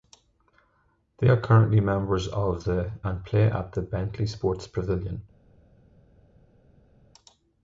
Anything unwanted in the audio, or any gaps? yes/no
no